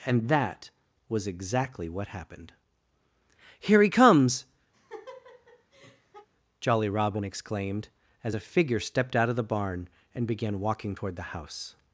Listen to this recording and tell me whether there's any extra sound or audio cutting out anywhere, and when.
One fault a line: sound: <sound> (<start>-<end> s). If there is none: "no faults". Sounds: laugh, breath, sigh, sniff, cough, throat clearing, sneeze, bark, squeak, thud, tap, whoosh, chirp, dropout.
sound: laugh (4.7-6.3 s)